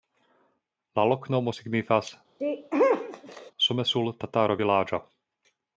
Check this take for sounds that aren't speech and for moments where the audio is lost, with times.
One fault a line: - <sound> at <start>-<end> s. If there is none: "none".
- sneeze at 2.4-3.5 s